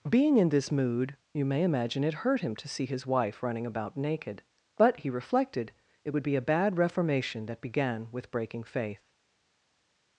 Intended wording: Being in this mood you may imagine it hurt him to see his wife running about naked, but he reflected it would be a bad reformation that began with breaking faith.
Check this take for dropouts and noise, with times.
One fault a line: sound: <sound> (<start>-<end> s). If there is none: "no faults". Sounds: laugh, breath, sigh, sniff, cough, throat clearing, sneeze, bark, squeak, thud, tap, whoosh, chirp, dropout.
no faults